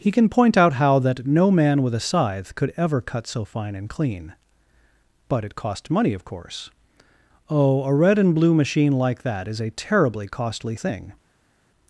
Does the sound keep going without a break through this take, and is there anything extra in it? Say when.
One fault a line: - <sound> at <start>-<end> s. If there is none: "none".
none